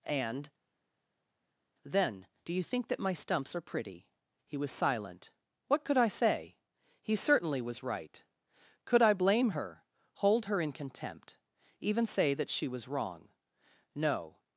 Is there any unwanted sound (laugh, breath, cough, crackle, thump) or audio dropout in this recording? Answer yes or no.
no